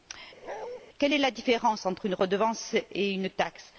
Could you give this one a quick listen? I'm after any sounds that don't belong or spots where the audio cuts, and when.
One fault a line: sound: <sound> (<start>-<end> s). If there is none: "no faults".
sound: bark (0.4-0.8 s)